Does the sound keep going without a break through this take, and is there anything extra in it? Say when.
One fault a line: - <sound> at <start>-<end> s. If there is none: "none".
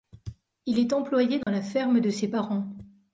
- dropout at 1.4-1.5 s